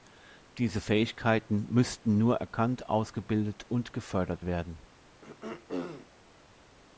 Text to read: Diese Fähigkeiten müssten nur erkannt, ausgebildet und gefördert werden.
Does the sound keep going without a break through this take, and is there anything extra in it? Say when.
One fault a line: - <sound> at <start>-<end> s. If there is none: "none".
- throat clearing at 5.2-6.1 s